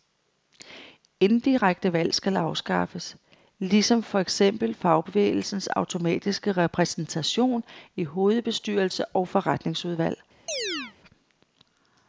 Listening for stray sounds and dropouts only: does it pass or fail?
fail